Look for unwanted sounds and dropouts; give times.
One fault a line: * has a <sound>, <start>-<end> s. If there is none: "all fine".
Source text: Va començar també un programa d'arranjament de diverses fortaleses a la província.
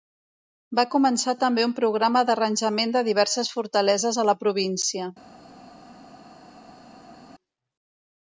all fine